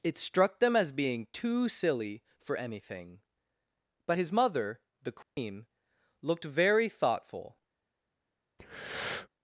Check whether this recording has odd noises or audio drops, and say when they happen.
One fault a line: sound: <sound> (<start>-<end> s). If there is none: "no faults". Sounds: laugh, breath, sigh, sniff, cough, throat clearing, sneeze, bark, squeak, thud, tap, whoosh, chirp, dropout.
sound: dropout (5.2-5.4 s)
sound: breath (8.6-9.3 s)